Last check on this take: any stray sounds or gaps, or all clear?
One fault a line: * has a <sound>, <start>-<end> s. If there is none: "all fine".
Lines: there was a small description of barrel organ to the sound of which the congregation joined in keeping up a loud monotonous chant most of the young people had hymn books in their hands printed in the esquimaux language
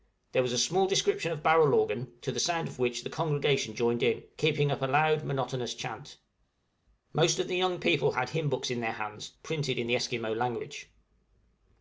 all fine